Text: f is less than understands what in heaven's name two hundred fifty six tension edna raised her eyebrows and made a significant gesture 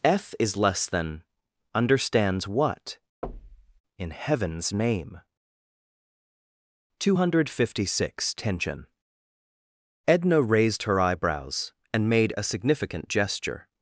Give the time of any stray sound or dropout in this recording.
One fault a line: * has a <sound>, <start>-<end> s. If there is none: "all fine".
* has a thud, 3.2-3.8 s